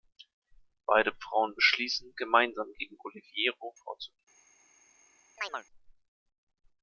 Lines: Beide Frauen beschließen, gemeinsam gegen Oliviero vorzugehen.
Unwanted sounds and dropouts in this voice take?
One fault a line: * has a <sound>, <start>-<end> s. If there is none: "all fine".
* has a chirp, 5.4-5.6 s